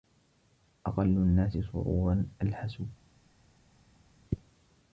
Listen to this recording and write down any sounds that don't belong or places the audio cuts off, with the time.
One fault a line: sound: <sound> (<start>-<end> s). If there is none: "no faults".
no faults